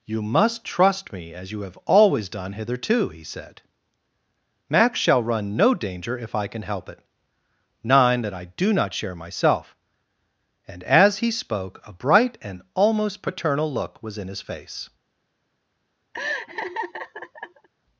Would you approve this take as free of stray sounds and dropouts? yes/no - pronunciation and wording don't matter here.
no